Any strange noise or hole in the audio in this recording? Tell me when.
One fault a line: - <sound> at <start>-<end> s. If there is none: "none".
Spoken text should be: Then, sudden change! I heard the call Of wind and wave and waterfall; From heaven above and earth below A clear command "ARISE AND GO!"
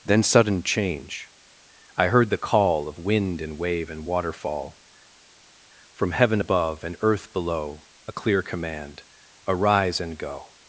none